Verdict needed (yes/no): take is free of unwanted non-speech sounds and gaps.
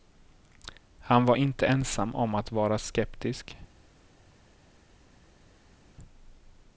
yes